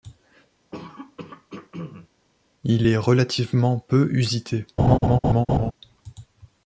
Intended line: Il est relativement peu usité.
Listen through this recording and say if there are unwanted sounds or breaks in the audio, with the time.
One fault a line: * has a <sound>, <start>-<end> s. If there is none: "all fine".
* has a throat clearing, 0.7-2.1 s
* has a laugh, 4.8-5.7 s